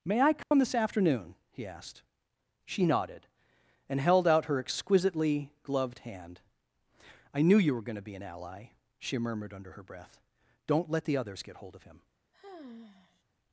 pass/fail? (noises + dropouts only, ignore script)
fail